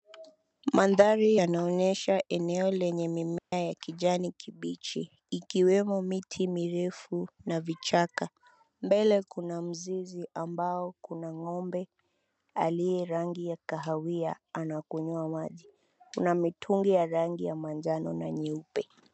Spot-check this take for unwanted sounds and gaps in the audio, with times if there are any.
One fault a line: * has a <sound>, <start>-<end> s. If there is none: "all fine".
* has a dropout, 3.4-3.5 s